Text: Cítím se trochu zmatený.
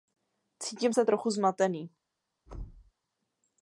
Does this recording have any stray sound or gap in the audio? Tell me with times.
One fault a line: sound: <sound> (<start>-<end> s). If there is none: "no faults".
sound: thud (2.5-2.9 s)